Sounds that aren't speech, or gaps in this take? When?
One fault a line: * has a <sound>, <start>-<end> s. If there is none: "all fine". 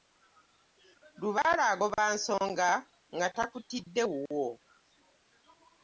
all fine